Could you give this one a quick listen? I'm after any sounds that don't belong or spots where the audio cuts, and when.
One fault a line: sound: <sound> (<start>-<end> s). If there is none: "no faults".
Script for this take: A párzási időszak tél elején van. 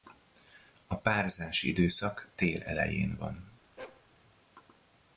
sound: bark (3.8-4.1 s)